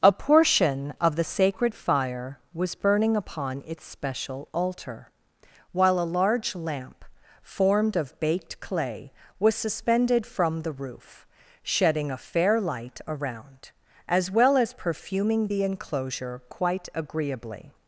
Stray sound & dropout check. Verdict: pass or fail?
pass